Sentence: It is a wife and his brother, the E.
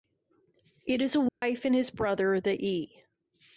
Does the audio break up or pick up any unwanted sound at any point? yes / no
yes